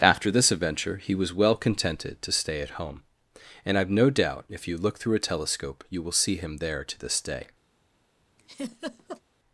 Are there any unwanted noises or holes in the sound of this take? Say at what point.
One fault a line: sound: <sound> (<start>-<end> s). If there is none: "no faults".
sound: laugh (8.4-9.2 s)